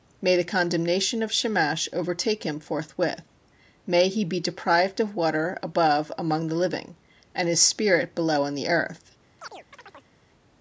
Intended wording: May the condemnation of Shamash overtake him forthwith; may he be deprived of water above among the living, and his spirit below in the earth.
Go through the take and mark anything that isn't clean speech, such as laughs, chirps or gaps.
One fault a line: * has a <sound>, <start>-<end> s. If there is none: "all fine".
* has a chirp, 9.4-10.1 s